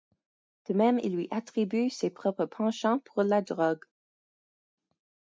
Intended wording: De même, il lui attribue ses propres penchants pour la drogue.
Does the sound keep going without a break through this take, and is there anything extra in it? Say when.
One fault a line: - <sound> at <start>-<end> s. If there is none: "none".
none